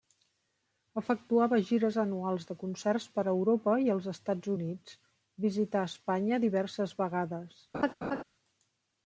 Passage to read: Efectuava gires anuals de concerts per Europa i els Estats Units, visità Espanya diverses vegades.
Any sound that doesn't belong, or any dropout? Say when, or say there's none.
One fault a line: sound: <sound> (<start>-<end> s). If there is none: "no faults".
sound: laugh (7.7-8.2 s)